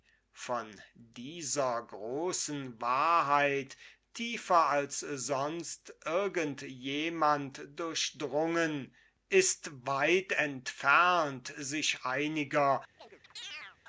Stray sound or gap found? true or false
true